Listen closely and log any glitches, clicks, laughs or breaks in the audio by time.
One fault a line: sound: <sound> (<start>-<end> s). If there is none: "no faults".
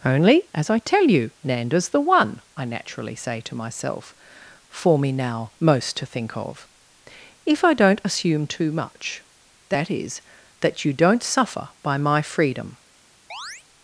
sound: chirp (13.3-13.6 s)